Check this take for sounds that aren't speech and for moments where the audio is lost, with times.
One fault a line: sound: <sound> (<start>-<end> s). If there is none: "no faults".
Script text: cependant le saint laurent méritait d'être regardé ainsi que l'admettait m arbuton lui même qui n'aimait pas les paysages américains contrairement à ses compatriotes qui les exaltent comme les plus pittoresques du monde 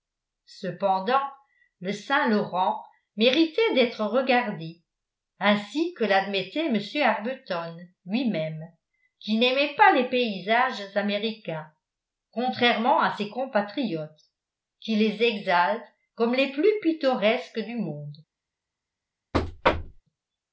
sound: thud (19.3-20.0 s)